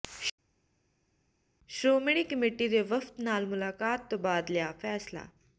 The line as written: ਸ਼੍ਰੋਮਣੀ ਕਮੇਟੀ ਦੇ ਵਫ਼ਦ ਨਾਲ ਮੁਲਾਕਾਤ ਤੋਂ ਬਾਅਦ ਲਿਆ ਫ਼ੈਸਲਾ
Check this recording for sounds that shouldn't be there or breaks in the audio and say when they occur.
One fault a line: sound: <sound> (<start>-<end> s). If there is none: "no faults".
no faults